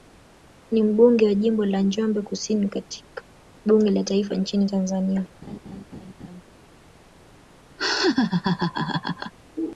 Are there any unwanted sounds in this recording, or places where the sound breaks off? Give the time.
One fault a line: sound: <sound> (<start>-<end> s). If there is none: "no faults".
sound: laugh (5.4-6.4 s)
sound: laugh (7.8-9.3 s)